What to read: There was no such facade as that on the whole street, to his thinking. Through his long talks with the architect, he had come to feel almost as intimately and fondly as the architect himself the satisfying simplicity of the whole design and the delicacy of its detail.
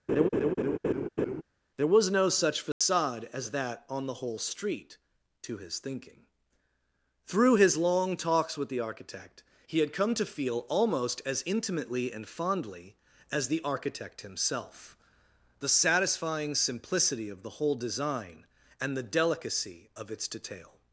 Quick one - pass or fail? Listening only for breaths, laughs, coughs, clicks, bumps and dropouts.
fail